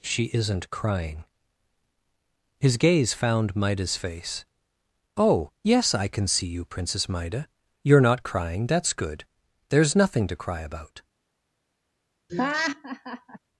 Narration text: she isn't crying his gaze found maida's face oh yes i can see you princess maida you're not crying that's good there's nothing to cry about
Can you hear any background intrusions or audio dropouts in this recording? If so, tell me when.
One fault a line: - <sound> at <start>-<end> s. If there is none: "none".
- laugh at 12.3-13.4 s